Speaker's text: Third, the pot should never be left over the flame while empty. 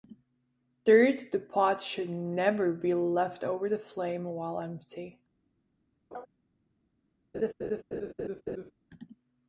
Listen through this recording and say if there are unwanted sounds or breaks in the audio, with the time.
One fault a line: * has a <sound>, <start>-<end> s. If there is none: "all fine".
* has a laugh, 6.1-6.3 s
* has a laugh, 7.3-8.7 s